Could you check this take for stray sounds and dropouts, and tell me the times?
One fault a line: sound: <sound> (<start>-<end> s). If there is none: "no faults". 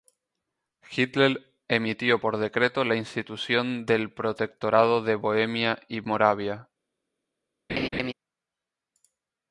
sound: laugh (7.7-8.1 s)